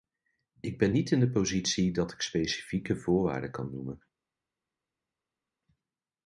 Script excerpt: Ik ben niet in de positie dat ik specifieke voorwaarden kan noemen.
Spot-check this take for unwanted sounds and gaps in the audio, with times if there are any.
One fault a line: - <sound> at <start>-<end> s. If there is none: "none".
none